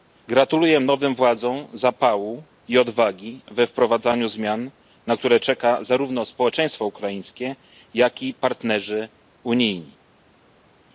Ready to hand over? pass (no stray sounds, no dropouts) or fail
pass